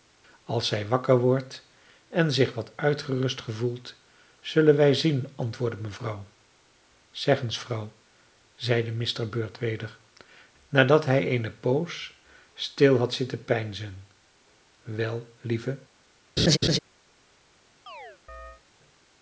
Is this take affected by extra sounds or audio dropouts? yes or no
yes